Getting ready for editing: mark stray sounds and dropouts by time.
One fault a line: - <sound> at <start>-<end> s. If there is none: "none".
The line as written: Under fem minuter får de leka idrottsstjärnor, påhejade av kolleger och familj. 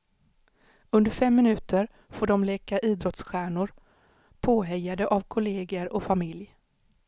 none